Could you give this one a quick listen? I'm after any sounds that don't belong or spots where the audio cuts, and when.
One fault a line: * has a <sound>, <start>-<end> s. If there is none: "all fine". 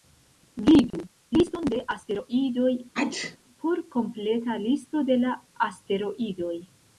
* has a dropout, 0.9-0.9 s
* has a sneeze, 2.9-3.4 s